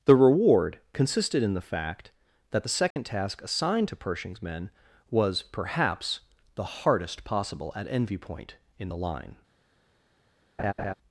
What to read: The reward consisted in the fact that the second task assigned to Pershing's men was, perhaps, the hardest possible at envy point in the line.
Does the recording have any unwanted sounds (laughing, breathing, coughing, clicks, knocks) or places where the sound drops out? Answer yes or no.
yes